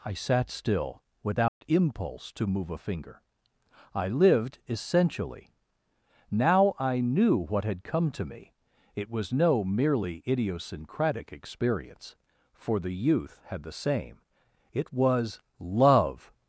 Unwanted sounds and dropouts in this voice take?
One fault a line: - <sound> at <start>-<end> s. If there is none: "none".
- dropout at 1.5-1.6 s